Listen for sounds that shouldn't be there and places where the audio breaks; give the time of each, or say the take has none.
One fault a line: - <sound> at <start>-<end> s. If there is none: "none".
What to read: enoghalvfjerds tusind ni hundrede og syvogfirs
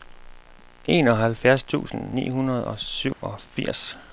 - dropout at 3.1-3.2 s